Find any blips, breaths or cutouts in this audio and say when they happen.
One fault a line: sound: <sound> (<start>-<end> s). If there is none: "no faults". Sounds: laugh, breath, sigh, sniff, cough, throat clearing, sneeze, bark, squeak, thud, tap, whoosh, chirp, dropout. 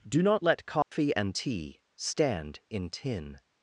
sound: dropout (0.8-0.9 s)